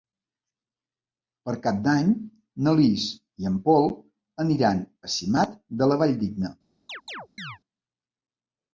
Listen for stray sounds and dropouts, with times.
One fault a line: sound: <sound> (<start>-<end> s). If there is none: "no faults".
sound: chirp (6.9-7.6 s)